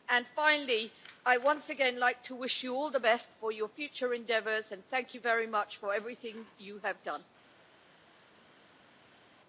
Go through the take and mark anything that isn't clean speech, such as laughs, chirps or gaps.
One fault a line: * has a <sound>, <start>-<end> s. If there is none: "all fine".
all fine